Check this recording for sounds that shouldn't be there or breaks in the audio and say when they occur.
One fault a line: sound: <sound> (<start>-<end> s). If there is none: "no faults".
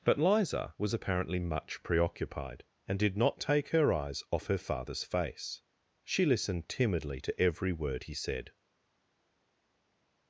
no faults